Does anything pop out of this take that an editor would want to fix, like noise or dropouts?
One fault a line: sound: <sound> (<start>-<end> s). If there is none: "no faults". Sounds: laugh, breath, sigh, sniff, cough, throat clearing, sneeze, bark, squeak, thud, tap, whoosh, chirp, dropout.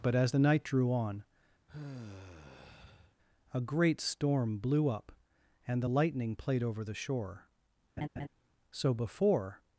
sound: sigh (1.7-3.1 s)
sound: laugh (8.0-8.3 s)